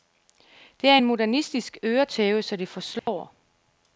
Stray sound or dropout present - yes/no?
yes